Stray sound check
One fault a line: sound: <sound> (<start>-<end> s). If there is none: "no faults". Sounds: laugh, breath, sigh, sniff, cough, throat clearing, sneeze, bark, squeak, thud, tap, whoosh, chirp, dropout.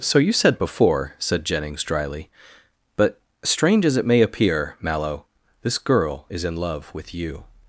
no faults